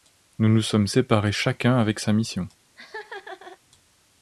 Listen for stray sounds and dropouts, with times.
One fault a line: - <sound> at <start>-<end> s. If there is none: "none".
- laugh at 2.8-3.6 s